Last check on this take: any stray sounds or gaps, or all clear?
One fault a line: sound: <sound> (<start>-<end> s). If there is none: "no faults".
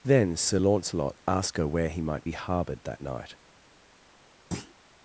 sound: thud (4.5-4.7 s)